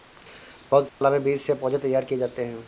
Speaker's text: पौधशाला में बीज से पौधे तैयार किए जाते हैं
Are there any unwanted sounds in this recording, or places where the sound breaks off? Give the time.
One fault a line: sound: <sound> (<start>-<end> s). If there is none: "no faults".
sound: dropout (0.9-1.0 s)